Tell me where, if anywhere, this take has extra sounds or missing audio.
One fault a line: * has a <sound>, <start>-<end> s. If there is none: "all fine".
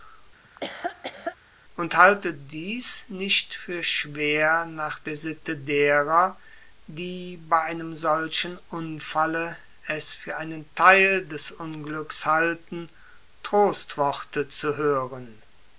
* has a laugh, 0.4-1.4 s